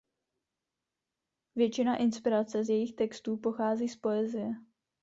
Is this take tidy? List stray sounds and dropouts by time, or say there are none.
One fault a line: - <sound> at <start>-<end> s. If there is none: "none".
none